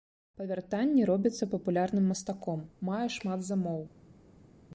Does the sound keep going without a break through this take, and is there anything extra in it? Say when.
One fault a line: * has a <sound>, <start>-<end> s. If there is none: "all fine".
all fine